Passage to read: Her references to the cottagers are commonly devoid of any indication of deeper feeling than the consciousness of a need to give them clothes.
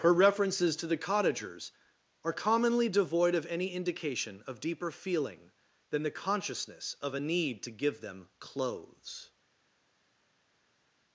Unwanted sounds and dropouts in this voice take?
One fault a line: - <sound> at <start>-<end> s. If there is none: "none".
none